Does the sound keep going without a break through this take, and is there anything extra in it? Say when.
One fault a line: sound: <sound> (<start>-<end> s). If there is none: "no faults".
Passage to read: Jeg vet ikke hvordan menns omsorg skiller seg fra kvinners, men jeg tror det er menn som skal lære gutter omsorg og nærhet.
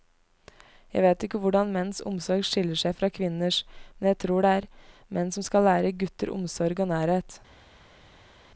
no faults